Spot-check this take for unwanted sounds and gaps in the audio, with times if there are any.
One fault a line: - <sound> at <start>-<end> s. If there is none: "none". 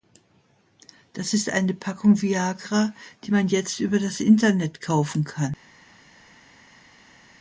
none